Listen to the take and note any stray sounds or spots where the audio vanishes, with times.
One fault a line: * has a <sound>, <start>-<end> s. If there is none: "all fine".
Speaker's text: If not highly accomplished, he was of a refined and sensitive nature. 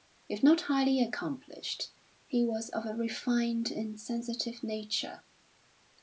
all fine